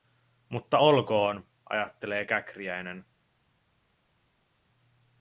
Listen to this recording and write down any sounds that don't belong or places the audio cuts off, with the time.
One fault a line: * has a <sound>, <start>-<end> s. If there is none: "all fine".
all fine